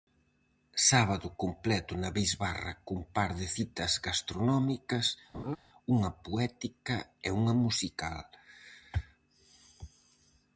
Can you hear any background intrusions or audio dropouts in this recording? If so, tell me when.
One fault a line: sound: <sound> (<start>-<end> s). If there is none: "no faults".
sound: laugh (5.3-5.6 s)